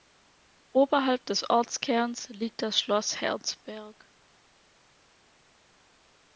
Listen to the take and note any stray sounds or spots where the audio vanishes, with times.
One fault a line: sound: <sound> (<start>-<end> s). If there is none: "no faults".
no faults